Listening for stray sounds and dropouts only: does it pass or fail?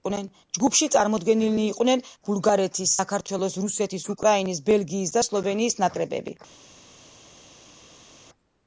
pass